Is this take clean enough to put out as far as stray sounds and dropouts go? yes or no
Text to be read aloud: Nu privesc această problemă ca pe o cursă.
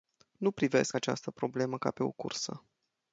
yes